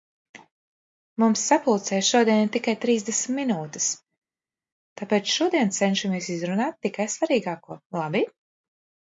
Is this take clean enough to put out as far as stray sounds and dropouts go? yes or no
yes